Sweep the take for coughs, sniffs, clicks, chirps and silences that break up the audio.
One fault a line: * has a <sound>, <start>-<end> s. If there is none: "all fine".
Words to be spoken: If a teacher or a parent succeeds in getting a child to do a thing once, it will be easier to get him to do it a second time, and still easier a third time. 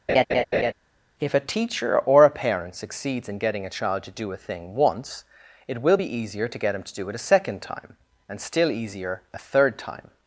* has a laugh, 0.1-0.7 s